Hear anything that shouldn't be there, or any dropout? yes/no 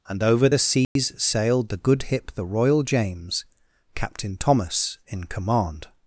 yes